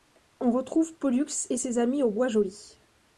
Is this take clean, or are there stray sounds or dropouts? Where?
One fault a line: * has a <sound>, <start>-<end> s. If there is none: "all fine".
all fine